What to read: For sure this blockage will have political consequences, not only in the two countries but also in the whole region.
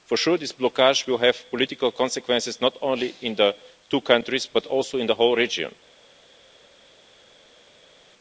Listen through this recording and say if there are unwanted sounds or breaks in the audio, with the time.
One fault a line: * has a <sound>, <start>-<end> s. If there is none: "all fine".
all fine